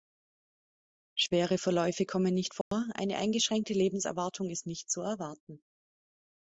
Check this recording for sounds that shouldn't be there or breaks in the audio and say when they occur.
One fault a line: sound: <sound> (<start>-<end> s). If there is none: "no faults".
sound: dropout (2.6-2.7 s)